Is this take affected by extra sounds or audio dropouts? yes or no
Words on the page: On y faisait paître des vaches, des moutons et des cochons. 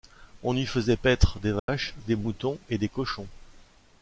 yes